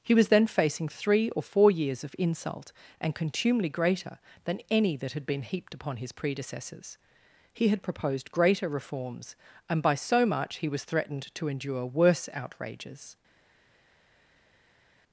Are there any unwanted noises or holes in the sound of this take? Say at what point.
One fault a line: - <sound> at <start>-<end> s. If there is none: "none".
none